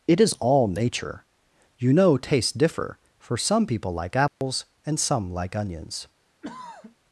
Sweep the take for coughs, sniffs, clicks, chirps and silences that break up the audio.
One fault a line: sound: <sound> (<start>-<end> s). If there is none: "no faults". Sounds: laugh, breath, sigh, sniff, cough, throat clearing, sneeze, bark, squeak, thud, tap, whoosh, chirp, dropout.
sound: dropout (4.3-4.4 s)
sound: throat clearing (6.4-7.0 s)